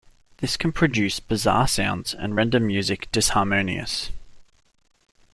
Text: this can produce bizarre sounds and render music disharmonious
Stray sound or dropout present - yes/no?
no